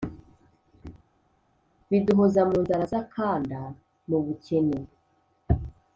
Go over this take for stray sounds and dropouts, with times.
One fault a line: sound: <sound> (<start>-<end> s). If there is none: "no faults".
no faults